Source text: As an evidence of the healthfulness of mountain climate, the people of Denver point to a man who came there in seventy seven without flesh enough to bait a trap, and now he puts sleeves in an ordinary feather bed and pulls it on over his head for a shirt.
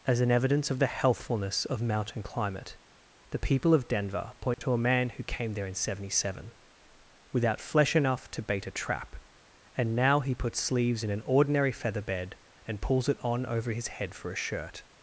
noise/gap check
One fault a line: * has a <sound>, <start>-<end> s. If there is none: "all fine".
* has a dropout, 4.5-4.6 s